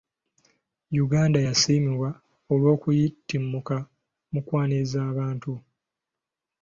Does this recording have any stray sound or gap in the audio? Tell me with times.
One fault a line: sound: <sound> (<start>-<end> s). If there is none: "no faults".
no faults